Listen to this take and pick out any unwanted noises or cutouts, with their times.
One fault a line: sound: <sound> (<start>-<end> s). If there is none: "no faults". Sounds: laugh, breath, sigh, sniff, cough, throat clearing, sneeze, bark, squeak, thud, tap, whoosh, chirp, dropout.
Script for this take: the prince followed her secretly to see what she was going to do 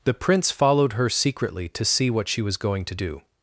no faults